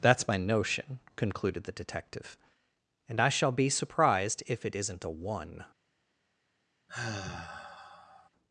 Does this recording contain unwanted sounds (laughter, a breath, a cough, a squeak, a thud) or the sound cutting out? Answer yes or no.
yes